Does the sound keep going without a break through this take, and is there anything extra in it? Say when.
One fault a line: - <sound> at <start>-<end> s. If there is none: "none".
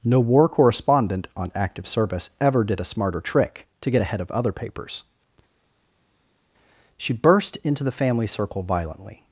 none